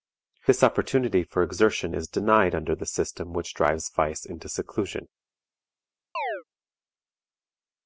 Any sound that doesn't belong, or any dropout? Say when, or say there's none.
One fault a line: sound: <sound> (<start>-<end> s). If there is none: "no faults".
sound: chirp (6.1-6.4 s)